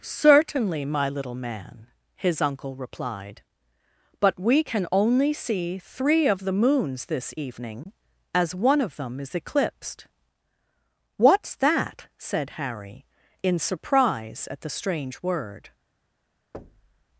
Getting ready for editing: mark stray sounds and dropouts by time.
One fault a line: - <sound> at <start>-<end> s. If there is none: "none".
- thud at 16.5-17.0 s